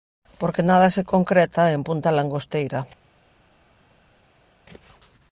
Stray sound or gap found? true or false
false